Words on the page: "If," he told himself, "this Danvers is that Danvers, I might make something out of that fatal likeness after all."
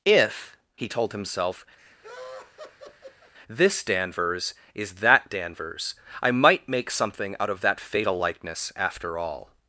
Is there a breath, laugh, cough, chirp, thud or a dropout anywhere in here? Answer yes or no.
yes